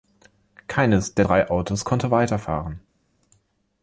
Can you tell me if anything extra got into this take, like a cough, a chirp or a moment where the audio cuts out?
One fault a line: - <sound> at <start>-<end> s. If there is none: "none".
none